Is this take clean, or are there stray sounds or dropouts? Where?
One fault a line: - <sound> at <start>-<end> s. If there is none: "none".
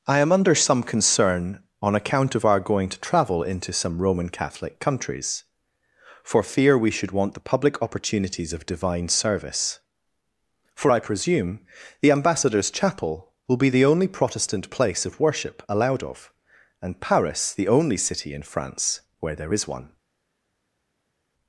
none